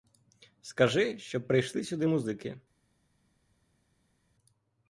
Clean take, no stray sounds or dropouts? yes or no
yes